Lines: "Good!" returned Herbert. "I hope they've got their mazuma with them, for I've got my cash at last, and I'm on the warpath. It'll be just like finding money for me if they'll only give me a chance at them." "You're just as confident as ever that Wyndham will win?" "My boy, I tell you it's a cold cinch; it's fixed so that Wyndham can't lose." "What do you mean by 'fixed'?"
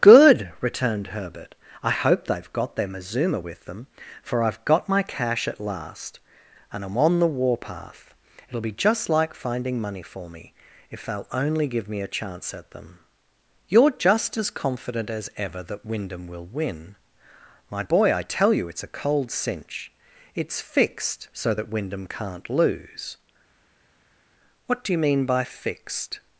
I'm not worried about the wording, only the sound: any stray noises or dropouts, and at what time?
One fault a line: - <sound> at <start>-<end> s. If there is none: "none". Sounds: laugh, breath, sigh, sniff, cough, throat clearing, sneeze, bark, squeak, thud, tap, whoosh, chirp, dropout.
none